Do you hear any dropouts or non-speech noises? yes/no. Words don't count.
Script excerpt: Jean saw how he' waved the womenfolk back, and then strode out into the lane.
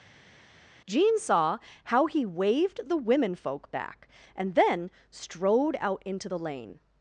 no